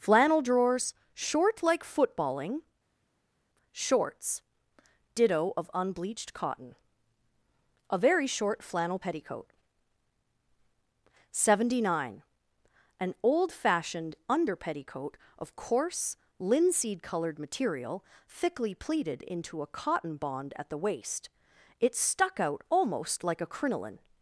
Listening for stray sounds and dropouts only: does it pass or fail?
pass